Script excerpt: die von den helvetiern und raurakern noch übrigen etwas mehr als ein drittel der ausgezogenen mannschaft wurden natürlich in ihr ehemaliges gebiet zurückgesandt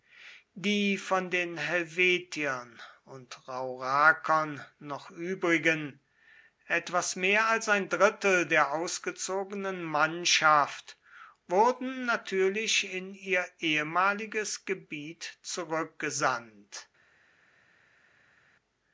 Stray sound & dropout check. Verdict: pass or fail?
pass